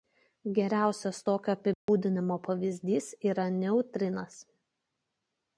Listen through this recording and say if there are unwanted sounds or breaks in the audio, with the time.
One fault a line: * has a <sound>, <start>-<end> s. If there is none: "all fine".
* has a dropout, 1.7-1.9 s